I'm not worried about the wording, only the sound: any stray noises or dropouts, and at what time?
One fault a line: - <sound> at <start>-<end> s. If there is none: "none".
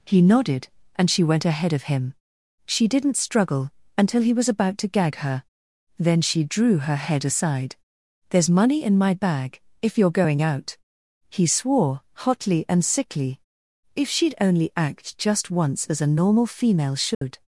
- dropout at 17.1-17.2 s